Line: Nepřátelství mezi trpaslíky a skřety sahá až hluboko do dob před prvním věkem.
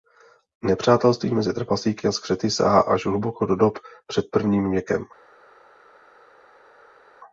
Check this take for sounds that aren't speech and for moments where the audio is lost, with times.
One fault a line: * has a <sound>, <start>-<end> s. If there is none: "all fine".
all fine